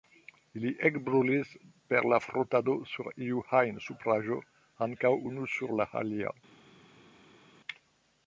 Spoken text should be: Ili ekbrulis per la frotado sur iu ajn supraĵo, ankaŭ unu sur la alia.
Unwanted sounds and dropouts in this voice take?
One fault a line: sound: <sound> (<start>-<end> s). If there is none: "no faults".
no faults